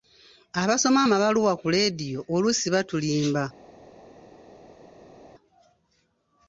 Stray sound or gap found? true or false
false